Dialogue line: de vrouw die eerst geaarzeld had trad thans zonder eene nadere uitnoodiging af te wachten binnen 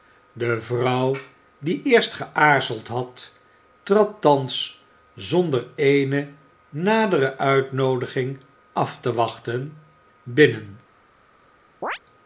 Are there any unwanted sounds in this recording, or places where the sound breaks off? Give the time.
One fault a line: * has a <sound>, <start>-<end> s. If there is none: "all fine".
* has a chirp, 11.8-12.0 s